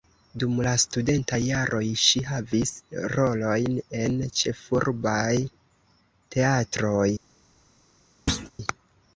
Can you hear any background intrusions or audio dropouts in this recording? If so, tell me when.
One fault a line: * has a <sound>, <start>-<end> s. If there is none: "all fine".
* has a thud, 8.3-8.5 s